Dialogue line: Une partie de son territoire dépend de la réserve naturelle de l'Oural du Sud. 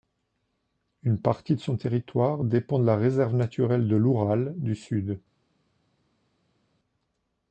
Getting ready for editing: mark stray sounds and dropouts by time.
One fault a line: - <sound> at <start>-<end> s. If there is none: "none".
none